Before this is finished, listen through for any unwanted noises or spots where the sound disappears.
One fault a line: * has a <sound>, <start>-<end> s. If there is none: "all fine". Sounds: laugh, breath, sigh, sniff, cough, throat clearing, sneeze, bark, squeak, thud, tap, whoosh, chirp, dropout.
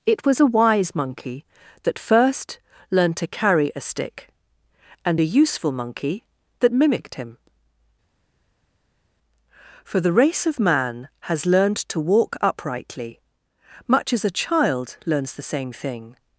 all fine